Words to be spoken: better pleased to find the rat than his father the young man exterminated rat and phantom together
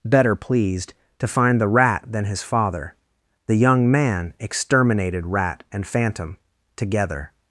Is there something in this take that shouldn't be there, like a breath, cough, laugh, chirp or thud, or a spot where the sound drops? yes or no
no